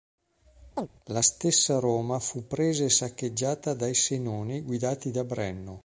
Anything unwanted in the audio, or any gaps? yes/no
yes